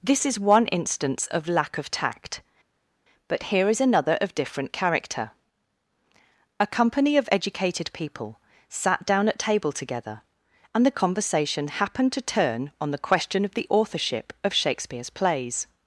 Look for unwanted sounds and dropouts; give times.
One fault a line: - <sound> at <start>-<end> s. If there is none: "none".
none